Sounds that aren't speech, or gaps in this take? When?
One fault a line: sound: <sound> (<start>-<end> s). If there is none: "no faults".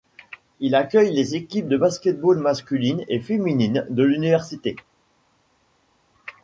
no faults